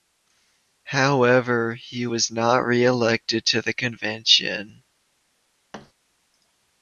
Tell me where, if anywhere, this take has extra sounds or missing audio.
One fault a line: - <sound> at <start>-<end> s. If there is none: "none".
- thud at 5.7-5.9 s